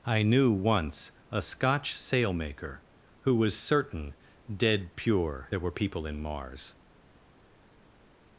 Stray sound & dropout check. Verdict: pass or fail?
pass